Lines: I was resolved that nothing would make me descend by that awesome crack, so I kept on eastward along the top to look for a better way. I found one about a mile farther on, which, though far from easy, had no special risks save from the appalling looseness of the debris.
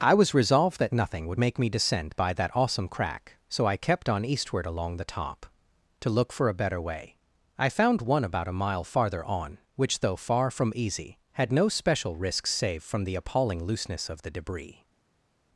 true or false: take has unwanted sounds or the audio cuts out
false